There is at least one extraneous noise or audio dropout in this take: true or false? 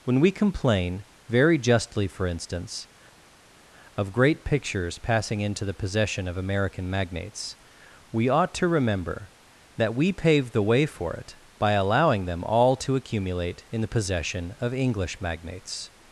false